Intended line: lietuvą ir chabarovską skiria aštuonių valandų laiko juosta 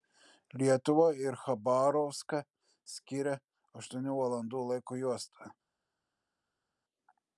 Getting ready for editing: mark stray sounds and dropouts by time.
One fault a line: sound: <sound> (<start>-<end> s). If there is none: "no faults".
no faults